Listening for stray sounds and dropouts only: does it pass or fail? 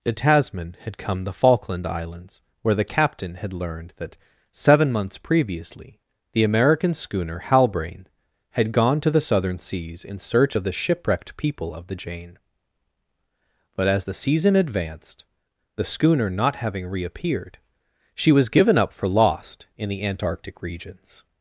pass